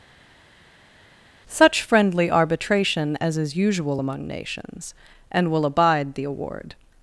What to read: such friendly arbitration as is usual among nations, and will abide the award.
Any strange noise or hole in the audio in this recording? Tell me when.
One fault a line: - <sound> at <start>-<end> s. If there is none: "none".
none